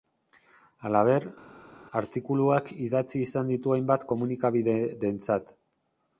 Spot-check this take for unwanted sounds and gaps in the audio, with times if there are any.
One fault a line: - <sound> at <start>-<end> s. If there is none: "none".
none